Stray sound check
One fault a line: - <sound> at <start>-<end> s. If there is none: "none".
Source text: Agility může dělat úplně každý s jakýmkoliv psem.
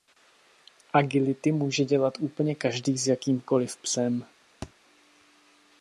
- thud at 4.6-4.7 s